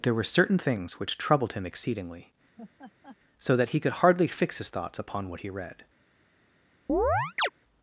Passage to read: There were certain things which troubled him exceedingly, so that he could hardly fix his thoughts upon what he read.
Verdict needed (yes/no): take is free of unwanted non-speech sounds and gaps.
no